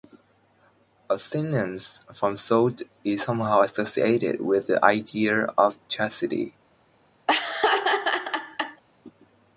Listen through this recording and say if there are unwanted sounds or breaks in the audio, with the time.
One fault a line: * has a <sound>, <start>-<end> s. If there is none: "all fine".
* has a laugh, 7.3-8.8 s